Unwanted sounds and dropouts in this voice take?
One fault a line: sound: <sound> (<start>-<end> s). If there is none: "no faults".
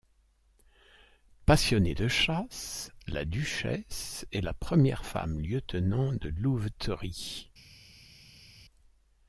no faults